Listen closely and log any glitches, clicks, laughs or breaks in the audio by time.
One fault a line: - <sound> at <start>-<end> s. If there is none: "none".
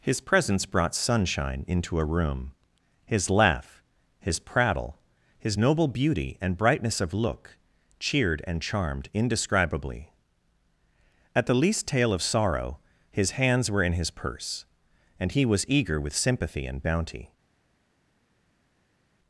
none